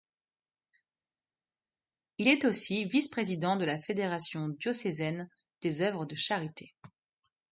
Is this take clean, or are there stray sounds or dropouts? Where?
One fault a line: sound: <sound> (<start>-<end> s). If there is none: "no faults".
no faults